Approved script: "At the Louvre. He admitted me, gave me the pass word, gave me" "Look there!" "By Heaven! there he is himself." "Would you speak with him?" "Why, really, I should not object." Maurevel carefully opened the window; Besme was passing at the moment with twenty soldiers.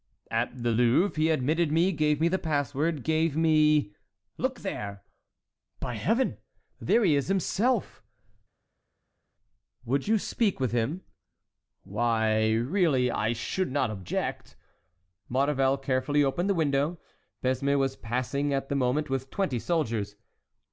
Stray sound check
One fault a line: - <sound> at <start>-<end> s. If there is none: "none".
none